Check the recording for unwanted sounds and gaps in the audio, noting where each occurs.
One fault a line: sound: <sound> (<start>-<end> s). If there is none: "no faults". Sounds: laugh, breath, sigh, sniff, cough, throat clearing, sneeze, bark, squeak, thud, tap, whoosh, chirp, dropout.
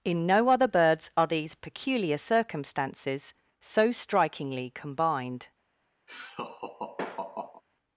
sound: laugh (6.1-7.6 s)